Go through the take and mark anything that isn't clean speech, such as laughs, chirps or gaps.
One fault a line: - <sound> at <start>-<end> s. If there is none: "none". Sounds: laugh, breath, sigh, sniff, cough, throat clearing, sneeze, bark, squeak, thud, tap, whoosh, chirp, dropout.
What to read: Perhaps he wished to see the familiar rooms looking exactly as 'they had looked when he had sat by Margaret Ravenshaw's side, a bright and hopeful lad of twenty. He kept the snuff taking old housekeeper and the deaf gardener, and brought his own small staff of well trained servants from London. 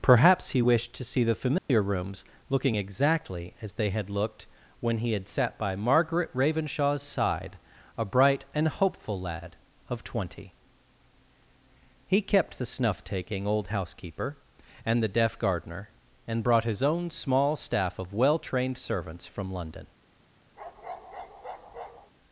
- dropout at 1.6-1.7 s
- bark at 20.6-22.1 s